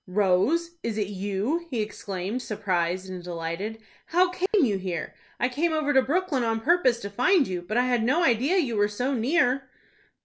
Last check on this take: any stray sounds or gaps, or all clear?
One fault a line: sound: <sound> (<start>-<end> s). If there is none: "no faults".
sound: dropout (4.5-4.5 s)